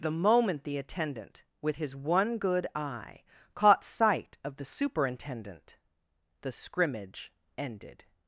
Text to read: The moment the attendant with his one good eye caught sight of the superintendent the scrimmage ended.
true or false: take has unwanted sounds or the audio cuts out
false